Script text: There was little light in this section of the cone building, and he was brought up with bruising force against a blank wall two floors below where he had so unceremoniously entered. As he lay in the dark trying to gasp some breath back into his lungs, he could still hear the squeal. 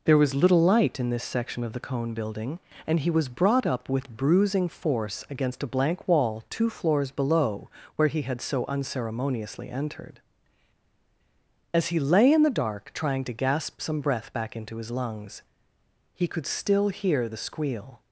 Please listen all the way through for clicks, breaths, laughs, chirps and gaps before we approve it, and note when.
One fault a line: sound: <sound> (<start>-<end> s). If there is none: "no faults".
no faults